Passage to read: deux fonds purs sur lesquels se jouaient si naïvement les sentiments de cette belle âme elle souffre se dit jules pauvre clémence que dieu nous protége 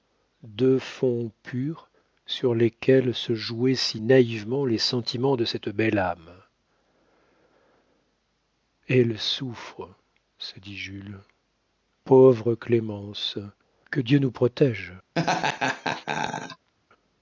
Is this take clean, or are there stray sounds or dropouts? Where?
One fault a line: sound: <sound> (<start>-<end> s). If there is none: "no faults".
sound: laugh (15.1-16.7 s)